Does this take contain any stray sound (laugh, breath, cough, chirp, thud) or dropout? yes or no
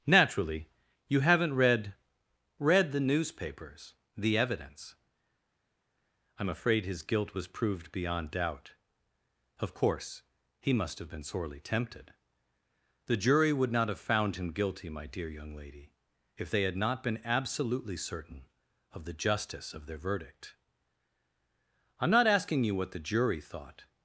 no